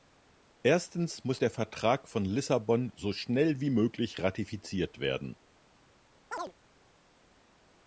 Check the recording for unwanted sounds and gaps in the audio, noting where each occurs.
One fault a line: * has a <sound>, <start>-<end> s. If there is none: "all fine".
* has a chirp, 6.3-6.5 s